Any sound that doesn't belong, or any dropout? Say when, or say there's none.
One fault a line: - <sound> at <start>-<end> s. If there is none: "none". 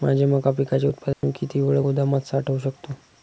- dropout at 1.1-1.2 s